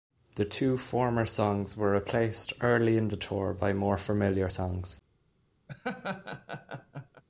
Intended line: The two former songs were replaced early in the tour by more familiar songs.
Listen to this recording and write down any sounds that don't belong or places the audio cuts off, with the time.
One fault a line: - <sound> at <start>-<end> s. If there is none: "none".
- laugh at 5.7-7.2 s